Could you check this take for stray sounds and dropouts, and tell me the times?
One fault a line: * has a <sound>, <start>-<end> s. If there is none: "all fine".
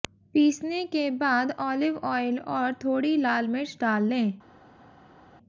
all fine